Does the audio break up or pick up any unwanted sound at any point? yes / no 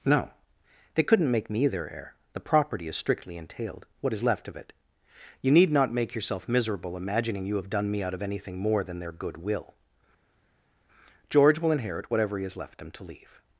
no